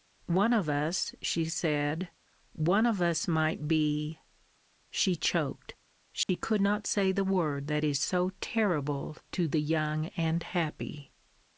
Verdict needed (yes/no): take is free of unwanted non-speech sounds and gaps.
no